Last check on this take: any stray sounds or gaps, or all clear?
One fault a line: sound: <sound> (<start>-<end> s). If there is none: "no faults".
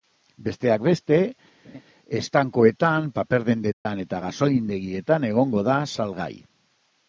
sound: laugh (1.6-1.8 s)
sound: dropout (3.7-3.9 s)